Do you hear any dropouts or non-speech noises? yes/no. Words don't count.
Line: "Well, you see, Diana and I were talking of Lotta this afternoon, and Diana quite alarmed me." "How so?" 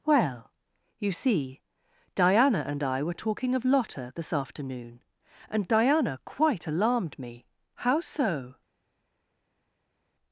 no